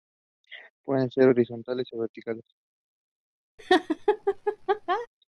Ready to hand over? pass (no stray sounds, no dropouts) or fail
fail